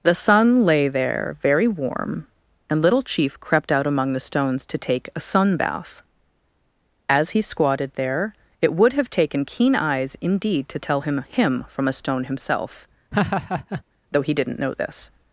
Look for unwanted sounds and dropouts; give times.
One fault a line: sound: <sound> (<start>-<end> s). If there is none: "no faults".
sound: laugh (13.1-13.8 s)